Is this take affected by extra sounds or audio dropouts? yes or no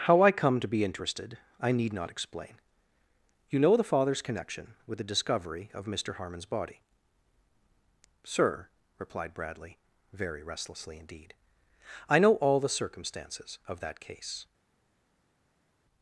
no